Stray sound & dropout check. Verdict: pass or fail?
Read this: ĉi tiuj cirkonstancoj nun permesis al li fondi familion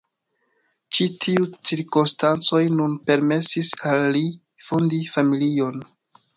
pass